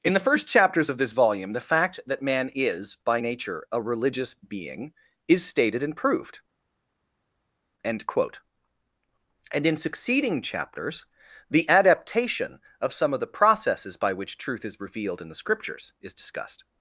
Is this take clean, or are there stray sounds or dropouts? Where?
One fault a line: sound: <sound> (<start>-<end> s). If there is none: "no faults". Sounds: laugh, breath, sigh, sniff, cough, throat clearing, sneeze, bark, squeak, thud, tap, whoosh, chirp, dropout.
no faults